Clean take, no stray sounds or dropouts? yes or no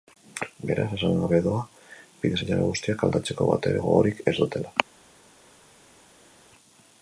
yes